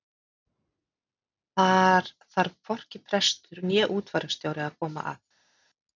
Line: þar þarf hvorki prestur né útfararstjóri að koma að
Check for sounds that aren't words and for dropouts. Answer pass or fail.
pass